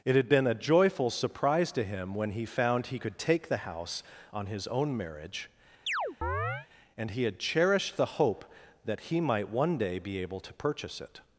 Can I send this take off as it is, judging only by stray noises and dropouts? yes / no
no